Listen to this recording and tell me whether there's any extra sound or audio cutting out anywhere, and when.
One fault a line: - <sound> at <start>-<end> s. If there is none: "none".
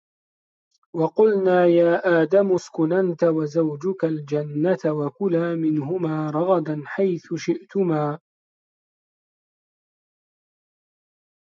none